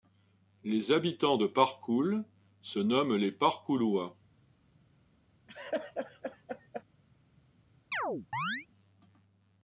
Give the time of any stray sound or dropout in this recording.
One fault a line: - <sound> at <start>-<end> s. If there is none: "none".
- laugh at 5.5-6.8 s
- chirp at 7.9-8.7 s